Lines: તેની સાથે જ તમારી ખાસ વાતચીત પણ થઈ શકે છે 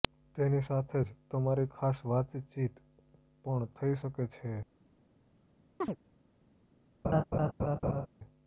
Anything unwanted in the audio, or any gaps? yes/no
yes